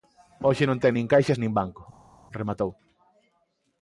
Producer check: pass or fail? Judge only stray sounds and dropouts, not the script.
pass